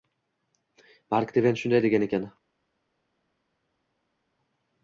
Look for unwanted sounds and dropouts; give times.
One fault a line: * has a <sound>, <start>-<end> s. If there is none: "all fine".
all fine